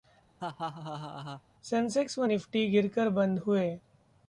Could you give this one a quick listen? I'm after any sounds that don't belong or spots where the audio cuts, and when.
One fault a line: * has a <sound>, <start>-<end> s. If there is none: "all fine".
* has a laugh, 0.4-1.4 s